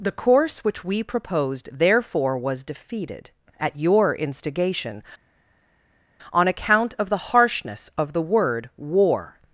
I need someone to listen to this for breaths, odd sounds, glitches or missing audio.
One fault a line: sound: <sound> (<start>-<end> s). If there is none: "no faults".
no faults